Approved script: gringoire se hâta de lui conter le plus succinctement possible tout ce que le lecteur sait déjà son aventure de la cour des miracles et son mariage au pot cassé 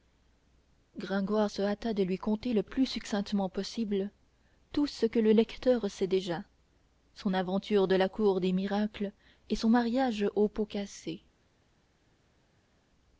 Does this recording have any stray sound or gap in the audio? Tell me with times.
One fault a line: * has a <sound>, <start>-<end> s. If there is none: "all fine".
all fine